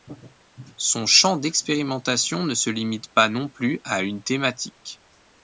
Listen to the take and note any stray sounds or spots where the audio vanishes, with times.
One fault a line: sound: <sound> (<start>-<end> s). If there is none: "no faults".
no faults